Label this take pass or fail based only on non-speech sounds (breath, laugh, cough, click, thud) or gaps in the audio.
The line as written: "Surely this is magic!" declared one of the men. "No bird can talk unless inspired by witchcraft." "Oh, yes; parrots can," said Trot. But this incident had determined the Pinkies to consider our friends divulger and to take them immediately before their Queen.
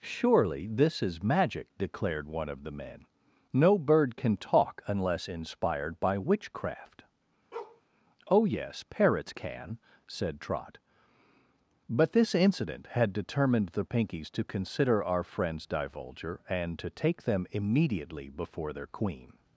fail